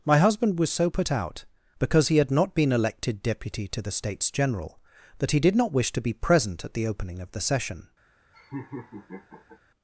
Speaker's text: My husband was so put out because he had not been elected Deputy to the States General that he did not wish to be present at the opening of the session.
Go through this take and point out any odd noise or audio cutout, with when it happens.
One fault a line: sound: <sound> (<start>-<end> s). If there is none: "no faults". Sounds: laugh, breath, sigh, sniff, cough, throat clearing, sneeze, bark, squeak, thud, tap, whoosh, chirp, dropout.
sound: laugh (8.3-9.6 s)